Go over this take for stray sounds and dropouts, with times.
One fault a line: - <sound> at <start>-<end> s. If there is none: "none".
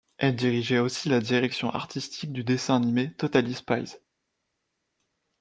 none